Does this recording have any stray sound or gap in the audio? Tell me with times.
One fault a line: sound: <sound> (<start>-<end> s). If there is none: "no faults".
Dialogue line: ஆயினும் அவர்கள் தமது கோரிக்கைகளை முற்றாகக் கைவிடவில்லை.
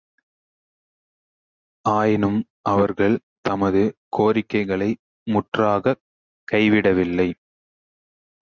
no faults